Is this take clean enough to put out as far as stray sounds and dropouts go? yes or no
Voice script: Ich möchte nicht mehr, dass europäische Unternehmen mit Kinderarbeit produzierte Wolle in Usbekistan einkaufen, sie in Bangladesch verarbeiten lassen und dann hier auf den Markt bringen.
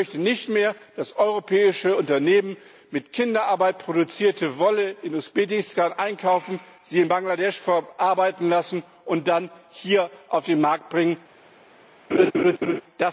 no